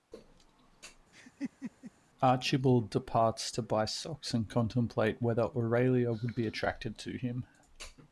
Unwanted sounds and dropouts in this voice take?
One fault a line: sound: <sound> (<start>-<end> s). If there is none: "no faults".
sound: laugh (1.1-1.9 s)